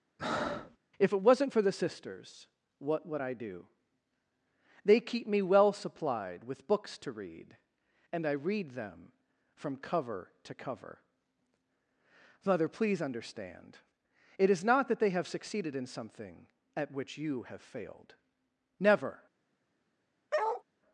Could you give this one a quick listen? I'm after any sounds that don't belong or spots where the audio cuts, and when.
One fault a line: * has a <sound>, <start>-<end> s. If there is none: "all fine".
* has a breath, 0.2-0.8 s
* has a bark, 20.3-20.6 s